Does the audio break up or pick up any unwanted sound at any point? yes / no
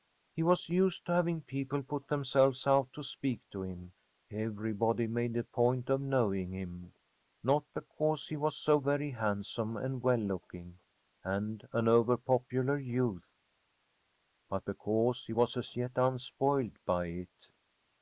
no